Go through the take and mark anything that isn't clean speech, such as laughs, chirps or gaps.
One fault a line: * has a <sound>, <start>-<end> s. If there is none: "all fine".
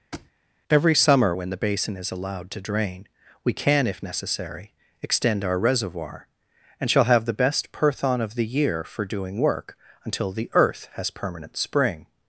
* has a thud, 0.1-0.3 s